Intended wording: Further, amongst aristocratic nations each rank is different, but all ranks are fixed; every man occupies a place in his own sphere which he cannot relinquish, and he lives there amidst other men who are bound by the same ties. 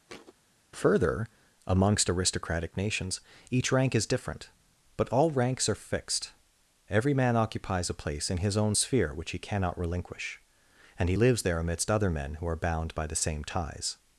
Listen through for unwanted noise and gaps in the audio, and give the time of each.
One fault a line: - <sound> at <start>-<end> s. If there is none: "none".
- thud at 0.1-0.3 s